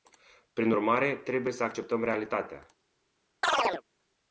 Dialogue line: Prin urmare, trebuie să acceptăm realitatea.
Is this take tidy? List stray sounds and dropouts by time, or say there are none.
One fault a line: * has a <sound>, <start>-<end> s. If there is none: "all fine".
* has a chirp, 3.4-3.8 s